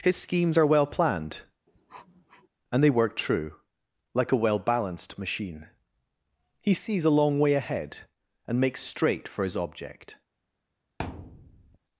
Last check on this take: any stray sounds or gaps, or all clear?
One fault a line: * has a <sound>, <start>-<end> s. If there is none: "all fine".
* has a sniff, 1.7-2.5 s
* has a thud, 11.0-11.8 s